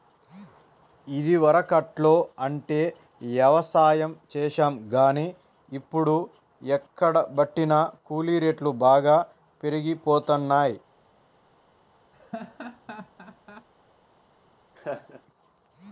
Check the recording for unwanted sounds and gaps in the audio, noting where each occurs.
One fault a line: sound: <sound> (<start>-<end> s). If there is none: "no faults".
sound: laugh (12.1-13.7 s)
sound: laugh (14.8-15.2 s)